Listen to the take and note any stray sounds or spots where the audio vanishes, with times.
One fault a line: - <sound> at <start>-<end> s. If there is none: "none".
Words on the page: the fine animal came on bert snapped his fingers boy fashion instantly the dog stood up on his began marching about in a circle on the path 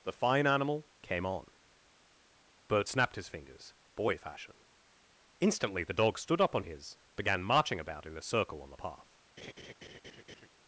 - laugh at 9.4-10.5 s